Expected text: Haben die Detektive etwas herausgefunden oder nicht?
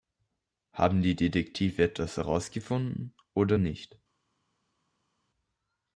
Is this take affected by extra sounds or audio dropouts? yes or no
no